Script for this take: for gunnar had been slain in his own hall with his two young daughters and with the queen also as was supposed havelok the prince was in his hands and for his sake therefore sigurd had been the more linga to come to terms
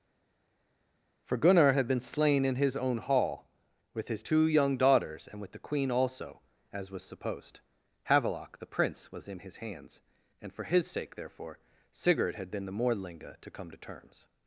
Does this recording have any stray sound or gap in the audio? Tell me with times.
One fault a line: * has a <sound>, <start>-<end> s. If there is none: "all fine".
all fine